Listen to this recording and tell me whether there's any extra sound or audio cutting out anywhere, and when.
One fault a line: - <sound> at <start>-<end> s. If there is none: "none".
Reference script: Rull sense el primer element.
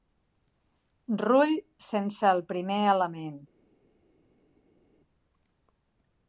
none